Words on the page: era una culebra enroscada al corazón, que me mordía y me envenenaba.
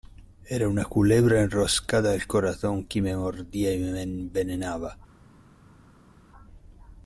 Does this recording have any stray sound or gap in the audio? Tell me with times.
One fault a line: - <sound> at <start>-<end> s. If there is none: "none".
none